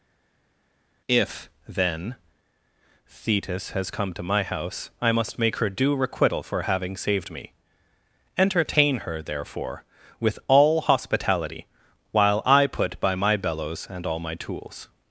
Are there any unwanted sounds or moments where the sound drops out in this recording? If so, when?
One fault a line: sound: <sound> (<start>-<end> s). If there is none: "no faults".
no faults